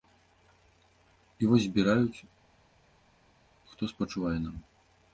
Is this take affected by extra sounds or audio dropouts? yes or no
no